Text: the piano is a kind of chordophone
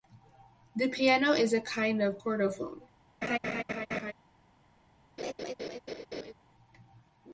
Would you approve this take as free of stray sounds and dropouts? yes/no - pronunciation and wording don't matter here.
no